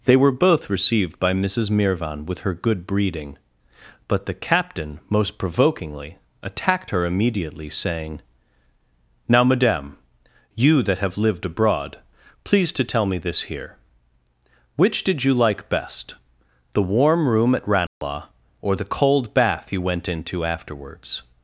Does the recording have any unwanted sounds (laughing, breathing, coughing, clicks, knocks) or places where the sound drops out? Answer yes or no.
yes